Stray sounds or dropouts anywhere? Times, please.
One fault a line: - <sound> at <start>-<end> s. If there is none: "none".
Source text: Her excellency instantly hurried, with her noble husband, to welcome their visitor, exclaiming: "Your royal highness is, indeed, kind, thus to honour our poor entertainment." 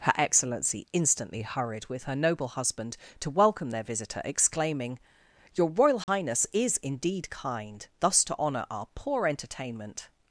- dropout at 6.0-6.1 s